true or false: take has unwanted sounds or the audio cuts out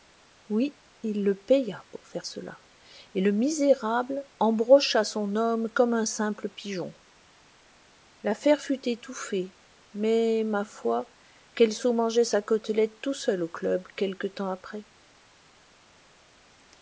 false